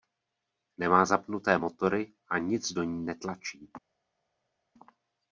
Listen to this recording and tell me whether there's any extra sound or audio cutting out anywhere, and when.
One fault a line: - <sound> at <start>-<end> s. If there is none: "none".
none